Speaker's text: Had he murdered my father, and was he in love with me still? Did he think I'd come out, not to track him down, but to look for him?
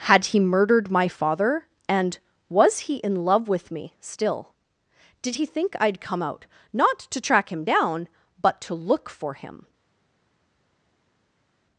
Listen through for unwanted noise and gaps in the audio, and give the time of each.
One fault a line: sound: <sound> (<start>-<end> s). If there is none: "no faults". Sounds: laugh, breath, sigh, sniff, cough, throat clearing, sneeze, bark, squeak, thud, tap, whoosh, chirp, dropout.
no faults